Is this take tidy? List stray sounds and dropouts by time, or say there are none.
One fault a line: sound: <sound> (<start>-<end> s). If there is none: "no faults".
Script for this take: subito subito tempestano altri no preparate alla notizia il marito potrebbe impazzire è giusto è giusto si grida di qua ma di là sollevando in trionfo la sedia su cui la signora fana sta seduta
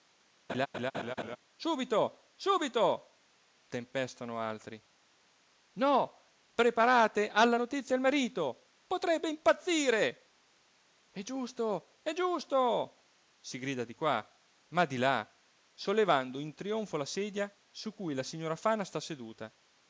sound: laugh (0.5-1.4 s)